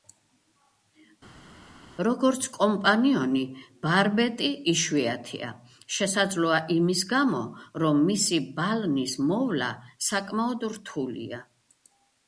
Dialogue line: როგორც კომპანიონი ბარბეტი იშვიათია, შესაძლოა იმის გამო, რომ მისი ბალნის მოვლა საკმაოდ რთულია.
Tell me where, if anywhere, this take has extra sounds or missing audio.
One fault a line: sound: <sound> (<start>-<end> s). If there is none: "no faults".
no faults